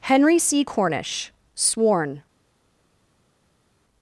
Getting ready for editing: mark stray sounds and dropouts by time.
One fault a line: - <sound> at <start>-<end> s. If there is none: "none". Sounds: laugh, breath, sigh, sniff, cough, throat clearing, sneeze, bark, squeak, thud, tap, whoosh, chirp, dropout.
none